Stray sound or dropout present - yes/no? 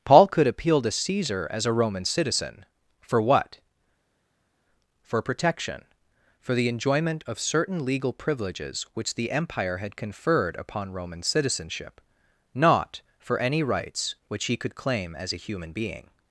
no